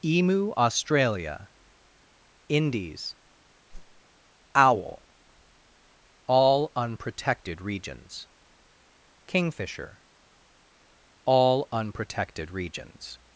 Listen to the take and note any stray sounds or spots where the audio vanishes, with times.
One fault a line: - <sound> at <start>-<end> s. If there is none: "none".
- whoosh at 3.7-4.0 s